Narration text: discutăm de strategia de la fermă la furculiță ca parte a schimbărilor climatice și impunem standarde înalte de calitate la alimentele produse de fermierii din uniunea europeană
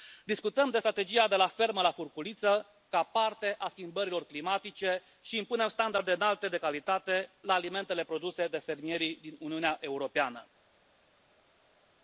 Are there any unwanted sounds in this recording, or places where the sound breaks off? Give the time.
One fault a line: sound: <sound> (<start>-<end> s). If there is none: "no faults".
no faults